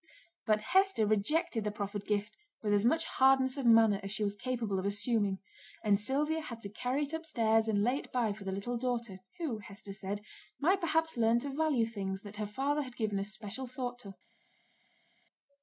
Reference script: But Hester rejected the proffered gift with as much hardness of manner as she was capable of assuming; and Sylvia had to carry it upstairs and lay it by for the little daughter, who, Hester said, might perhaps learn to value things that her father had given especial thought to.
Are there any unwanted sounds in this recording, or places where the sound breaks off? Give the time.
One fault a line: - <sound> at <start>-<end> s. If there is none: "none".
none